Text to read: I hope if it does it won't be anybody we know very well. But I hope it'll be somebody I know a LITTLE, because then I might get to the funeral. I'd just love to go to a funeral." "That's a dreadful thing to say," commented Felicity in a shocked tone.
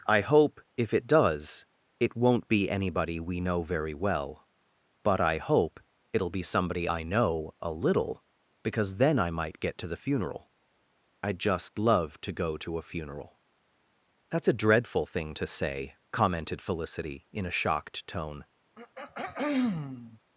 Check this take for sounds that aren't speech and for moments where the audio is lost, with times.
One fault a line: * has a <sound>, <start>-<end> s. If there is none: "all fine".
* has a throat clearing, 18.8-20.2 s